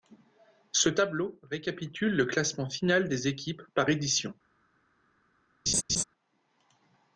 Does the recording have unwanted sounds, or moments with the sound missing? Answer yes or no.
yes